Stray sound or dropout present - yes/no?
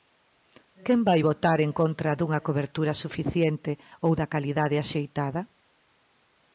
no